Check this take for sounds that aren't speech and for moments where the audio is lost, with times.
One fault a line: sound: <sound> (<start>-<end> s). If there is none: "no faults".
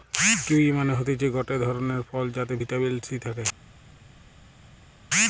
no faults